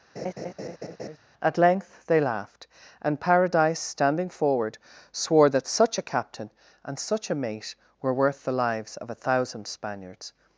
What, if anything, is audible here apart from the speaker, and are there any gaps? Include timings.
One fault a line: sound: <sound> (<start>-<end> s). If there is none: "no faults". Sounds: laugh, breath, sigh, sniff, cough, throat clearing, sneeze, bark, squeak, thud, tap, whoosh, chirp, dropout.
sound: laugh (0.2-1.2 s)